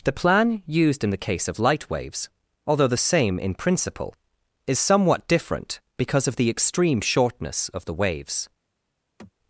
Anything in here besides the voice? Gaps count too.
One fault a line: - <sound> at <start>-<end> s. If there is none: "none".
- sigh at 9.2-9.3 s